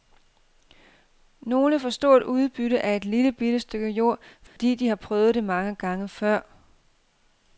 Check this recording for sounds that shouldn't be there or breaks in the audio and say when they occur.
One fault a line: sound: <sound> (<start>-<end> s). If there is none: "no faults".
sound: dropout (4.5-4.6 s)